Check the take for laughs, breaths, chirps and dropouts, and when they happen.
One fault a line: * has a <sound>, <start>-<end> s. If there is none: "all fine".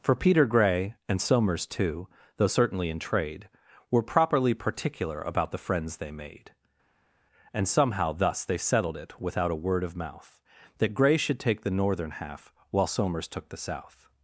all fine